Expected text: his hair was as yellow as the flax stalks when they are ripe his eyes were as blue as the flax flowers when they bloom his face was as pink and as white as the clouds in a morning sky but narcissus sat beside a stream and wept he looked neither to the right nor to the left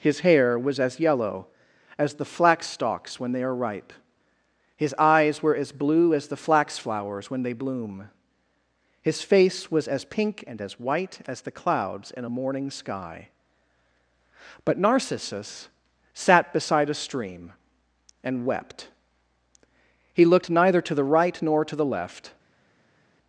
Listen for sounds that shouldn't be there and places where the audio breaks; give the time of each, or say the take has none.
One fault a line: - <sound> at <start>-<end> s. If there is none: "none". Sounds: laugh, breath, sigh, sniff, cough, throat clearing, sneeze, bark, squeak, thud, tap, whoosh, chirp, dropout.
none